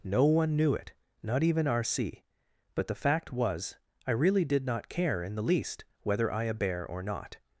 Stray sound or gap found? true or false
false